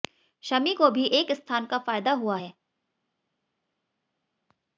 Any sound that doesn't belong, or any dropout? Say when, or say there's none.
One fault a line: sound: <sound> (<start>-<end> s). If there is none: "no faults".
no faults